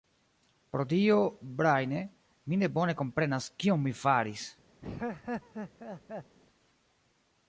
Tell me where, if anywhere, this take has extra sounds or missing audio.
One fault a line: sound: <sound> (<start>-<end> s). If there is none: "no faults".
sound: laugh (4.8-6.4 s)